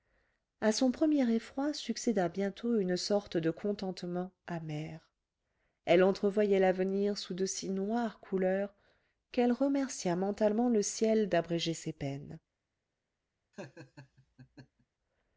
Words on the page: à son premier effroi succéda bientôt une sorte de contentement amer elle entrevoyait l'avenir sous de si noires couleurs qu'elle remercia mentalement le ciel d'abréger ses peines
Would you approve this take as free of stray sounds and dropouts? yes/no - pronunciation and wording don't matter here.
no